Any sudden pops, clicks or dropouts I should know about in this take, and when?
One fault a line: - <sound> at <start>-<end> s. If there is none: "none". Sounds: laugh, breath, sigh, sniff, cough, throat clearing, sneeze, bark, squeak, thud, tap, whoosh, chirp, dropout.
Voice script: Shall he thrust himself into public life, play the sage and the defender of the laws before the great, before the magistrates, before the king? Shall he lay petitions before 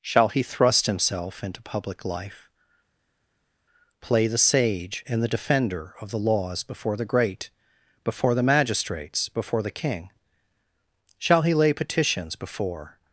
none